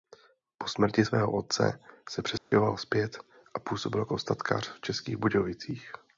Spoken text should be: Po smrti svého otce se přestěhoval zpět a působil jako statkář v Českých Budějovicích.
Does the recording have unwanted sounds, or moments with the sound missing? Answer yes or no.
yes